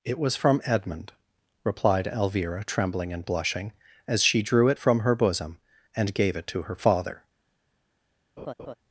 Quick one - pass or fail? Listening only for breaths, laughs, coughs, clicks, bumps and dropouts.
fail